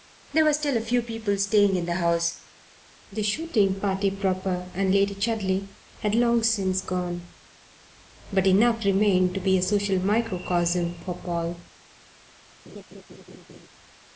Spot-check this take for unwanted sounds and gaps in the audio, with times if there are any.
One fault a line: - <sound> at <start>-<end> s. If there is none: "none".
- laugh at 12.7-13.7 s